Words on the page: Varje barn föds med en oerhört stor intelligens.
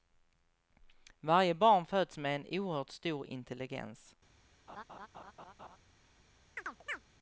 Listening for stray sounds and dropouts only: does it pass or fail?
fail